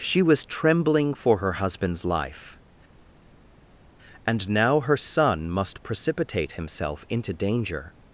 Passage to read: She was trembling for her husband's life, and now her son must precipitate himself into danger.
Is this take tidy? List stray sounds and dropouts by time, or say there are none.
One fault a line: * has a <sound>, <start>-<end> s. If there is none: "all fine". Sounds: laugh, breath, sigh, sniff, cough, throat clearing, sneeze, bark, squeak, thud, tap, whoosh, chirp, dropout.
all fine